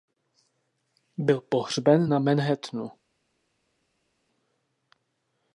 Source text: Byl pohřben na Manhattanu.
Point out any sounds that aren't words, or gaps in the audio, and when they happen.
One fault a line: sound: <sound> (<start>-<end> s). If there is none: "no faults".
no faults